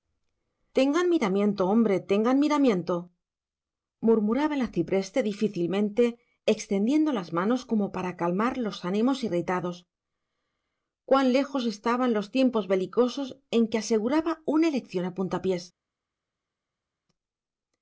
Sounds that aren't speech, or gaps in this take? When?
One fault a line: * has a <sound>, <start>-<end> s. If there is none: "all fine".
all fine